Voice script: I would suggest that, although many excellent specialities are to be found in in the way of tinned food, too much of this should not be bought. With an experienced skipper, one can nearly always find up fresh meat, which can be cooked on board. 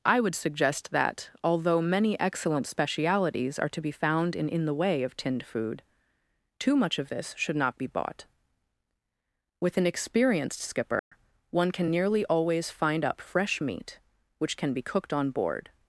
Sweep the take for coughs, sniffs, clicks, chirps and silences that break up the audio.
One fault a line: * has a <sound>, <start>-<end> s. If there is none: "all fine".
* has a dropout, 11.0-11.1 s